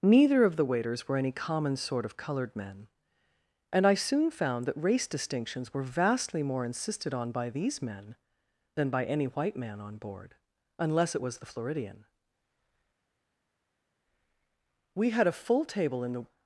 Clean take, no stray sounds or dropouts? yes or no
yes